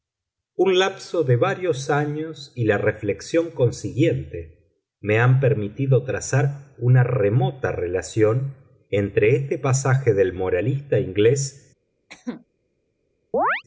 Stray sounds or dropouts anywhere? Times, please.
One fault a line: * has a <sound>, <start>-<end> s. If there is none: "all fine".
* has a cough, 12.1-12.5 s
* has a chirp, 13.3-13.6 s